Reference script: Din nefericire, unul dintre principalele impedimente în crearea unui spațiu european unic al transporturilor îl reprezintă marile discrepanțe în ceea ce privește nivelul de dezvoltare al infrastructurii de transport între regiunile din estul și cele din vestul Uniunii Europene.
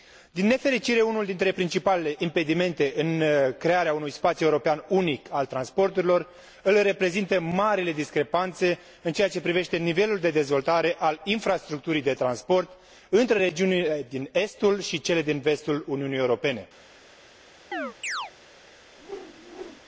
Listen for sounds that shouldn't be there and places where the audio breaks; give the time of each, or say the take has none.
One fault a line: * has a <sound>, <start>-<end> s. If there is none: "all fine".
* has a chirp, 17.7-18.3 s
* has a whoosh, 19.0-19.8 s